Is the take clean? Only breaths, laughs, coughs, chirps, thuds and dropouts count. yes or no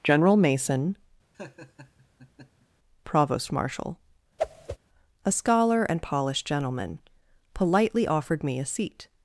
no